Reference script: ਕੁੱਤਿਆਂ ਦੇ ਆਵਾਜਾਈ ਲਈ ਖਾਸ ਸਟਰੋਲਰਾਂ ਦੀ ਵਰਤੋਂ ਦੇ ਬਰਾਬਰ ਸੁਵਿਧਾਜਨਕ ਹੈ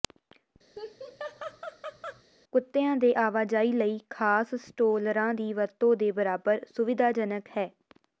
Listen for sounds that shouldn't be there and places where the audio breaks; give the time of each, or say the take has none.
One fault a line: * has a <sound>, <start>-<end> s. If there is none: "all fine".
* has a laugh, 0.8-2.2 s